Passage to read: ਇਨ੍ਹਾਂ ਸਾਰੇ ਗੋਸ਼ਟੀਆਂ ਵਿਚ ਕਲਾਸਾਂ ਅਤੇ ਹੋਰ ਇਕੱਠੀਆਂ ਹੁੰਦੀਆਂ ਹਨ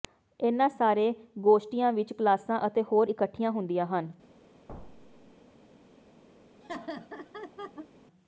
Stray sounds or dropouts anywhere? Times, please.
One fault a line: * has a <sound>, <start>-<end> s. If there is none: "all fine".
* has a thud, 4.7-5.4 s
* has a laugh, 6.6-7.9 s